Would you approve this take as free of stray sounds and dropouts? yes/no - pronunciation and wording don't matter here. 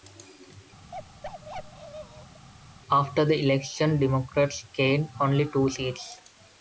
no